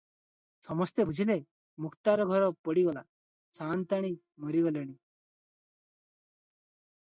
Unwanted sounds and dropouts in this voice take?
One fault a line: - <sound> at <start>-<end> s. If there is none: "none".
none